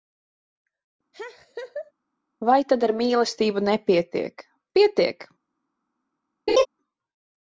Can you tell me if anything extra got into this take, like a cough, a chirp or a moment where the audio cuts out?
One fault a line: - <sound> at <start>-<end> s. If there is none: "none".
- laugh at 1.1-1.9 s
- laugh at 6.5-6.7 s